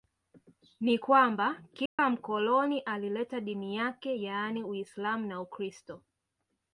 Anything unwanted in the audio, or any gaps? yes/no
yes